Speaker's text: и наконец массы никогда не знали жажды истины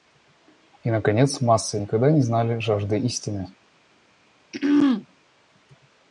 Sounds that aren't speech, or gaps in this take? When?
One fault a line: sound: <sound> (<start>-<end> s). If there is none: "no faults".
sound: throat clearing (4.5-5.1 s)